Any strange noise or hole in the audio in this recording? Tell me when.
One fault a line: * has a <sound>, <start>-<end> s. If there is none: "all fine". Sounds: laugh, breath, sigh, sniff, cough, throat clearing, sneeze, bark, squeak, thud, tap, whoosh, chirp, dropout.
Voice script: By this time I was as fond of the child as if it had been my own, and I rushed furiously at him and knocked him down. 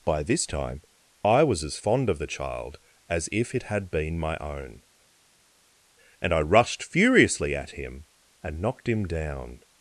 all fine